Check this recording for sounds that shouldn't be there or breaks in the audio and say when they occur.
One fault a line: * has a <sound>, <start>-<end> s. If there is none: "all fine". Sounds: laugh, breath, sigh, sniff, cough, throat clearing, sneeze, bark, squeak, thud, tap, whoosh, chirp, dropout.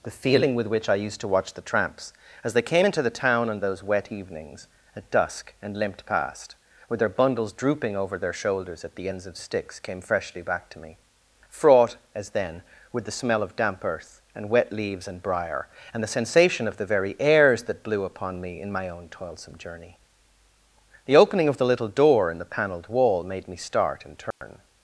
* has a dropout, 24.3-24.4 s